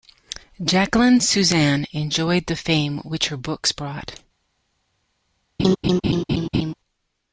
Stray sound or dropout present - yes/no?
yes